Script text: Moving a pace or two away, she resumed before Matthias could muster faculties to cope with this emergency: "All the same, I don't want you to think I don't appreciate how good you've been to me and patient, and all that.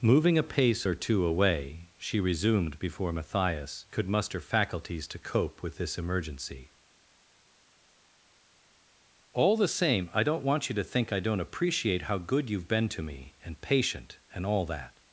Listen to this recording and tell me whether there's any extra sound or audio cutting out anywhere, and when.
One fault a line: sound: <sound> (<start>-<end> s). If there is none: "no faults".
no faults